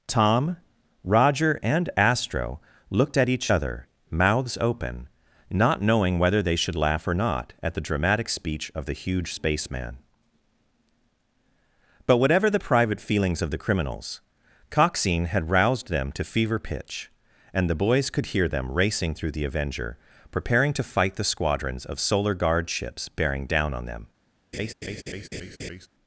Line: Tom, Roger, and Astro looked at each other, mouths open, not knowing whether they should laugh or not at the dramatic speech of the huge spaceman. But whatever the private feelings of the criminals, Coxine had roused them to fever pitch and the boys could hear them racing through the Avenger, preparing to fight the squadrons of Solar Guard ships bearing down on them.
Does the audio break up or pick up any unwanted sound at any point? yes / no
yes